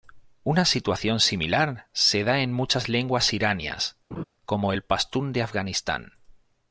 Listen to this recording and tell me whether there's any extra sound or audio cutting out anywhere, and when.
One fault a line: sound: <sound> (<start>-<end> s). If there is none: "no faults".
sound: laugh (4.1-4.2 s)